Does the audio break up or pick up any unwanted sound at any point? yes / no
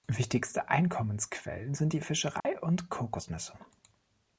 yes